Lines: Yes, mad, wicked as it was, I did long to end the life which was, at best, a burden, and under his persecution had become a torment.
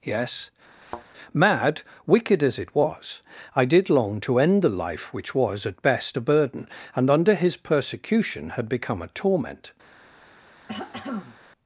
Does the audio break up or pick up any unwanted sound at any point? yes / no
yes